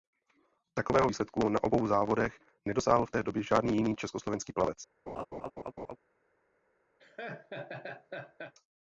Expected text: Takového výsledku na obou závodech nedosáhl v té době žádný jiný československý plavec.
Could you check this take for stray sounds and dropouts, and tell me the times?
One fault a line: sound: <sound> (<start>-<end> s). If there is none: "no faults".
sound: laugh (5.1-6.0 s)
sound: laugh (7.0-8.5 s)